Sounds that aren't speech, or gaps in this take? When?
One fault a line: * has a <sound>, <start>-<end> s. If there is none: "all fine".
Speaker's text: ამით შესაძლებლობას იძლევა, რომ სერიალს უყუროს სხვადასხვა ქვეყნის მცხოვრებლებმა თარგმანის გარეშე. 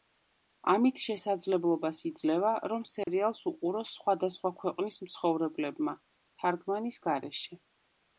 * has a dropout, 3.0-3.1 s